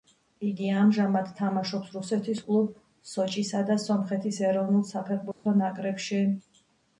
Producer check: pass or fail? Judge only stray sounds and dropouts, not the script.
fail